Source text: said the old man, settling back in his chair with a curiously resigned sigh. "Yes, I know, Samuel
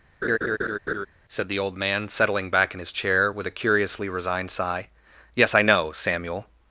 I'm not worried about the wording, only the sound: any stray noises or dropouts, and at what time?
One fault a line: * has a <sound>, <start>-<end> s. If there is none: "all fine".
* has a laugh, 0.2-1.1 s